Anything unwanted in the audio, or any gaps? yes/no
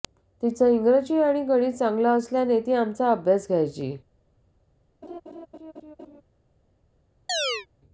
yes